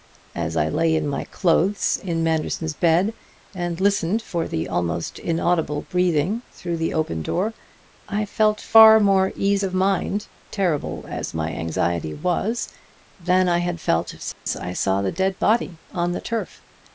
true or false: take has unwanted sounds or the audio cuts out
true